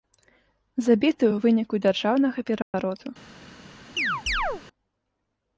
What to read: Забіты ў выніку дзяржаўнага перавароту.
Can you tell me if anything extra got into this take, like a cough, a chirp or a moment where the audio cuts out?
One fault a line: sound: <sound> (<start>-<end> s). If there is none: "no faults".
sound: dropout (2.6-2.7 s)
sound: chirp (4.0-4.6 s)